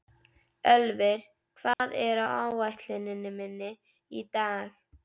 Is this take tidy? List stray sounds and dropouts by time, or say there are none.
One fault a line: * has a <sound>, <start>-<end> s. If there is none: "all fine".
* has a dropout, 1.7-1.8 s